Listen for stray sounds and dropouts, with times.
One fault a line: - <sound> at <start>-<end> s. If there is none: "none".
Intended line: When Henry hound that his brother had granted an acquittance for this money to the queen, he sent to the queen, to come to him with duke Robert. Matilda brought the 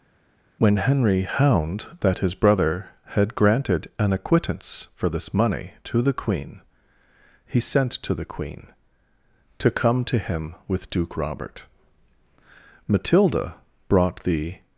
none